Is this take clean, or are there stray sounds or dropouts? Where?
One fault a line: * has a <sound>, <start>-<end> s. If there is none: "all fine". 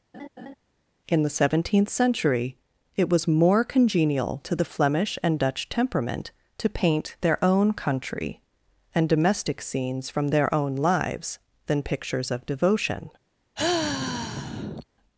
* has a laugh, 0.1-0.5 s
* has a sigh, 13.6-14.9 s